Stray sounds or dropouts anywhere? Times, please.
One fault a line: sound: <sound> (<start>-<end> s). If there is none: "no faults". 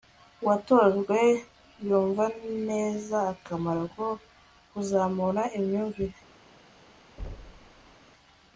sound: thud (7.2-7.9 s)